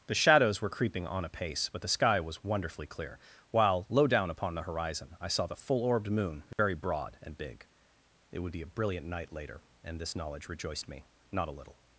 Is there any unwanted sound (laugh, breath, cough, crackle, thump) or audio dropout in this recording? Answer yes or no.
yes